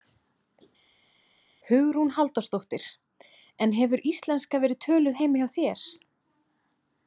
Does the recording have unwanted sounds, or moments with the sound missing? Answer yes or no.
no